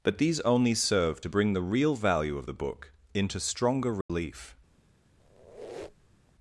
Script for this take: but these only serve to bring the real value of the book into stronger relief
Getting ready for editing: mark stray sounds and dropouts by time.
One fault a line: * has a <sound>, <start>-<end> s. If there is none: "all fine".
* has a dropout, 4.0-4.1 s
* has a squeak, 5.2-6.3 s